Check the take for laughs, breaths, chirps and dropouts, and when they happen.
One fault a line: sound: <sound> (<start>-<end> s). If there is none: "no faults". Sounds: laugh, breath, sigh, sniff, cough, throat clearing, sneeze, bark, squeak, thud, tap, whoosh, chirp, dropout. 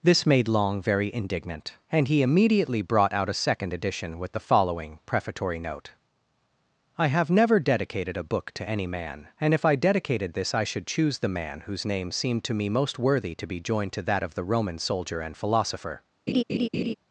sound: laugh (16.3-16.9 s)